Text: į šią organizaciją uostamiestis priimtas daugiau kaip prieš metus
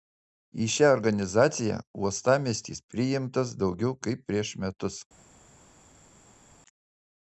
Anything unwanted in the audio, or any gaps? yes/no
no